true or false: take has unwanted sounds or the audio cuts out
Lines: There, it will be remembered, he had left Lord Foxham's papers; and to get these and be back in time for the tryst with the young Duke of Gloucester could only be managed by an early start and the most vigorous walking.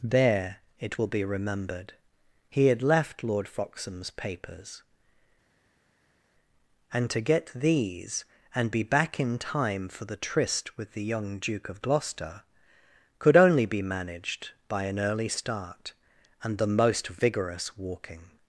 false